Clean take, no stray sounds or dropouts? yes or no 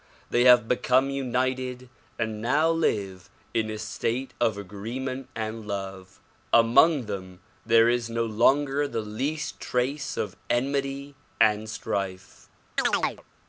no